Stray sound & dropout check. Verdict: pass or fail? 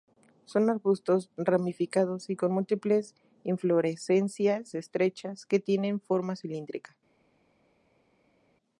pass